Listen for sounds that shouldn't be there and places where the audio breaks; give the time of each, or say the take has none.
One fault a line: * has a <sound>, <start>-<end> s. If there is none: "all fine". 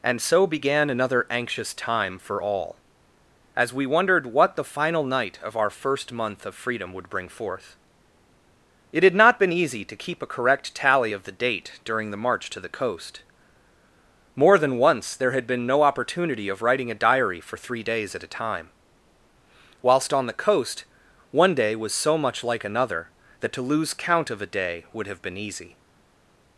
all fine